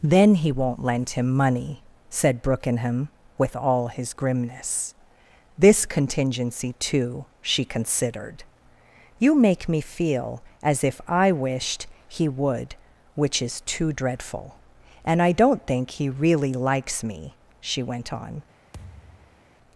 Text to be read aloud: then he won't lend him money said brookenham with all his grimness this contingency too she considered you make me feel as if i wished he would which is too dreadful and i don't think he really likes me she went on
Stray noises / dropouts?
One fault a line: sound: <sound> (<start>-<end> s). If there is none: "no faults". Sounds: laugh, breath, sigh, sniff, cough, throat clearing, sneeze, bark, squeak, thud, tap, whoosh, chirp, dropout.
sound: thud (18.7-19.5 s)